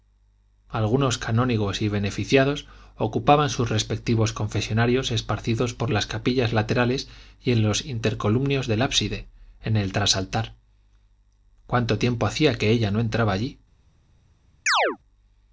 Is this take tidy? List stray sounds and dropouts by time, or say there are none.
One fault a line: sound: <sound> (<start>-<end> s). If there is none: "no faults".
sound: chirp (14.7-15.0 s)